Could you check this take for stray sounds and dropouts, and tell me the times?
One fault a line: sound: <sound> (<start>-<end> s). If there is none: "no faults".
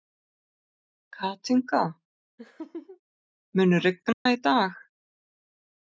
sound: laugh (2.4-3.0 s)
sound: dropout (4.1-4.3 s)